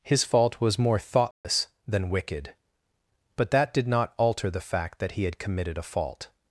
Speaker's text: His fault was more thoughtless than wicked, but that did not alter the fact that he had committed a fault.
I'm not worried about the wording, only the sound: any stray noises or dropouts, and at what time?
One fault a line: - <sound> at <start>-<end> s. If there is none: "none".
- dropout at 1.3-1.4 s